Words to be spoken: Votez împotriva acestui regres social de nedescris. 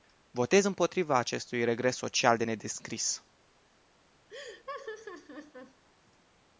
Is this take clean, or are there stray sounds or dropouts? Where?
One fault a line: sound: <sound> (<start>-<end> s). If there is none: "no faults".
sound: laugh (4.3-5.8 s)